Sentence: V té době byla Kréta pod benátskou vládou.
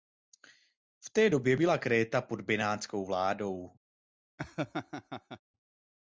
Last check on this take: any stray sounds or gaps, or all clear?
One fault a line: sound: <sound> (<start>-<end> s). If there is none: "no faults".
sound: laugh (4.4-5.4 s)